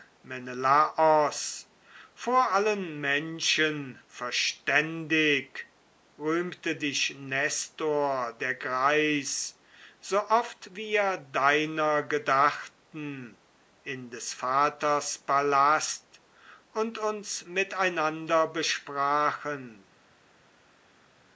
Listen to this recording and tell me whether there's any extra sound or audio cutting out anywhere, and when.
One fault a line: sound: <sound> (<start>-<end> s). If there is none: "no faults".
no faults